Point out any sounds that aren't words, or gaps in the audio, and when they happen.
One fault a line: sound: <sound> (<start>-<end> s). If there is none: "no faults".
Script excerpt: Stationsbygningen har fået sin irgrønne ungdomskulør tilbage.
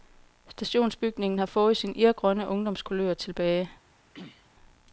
sound: throat clearing (4.1-4.5 s)